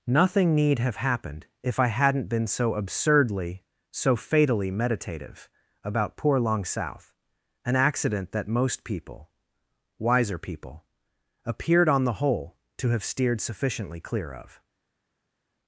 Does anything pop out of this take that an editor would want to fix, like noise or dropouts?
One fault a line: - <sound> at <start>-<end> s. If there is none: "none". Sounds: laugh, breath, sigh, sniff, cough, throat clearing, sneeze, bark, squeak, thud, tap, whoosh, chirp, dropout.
none